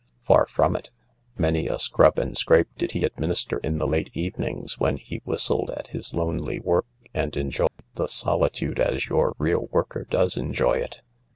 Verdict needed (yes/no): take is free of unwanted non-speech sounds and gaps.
no